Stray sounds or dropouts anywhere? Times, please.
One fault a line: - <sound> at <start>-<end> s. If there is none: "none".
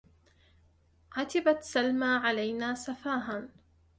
none